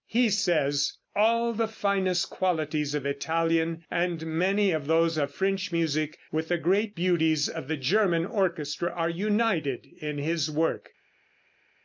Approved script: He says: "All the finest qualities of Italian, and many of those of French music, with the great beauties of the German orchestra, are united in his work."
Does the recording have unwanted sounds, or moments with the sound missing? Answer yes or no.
no